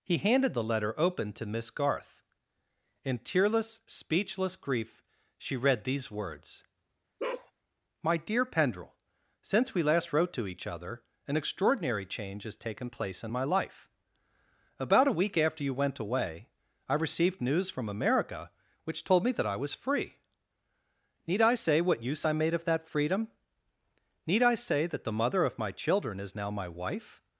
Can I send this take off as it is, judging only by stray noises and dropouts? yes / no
no